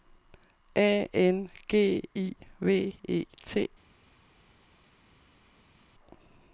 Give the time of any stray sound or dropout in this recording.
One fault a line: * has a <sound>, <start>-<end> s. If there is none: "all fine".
all fine